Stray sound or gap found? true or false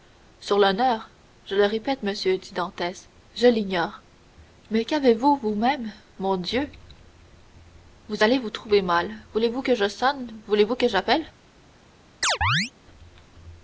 true